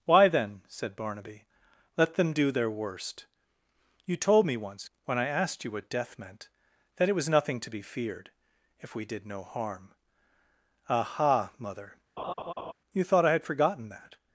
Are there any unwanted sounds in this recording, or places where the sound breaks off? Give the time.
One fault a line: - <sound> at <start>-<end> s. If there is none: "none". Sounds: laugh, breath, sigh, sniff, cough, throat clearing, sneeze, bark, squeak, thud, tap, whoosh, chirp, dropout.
- laugh at 12.2-12.7 s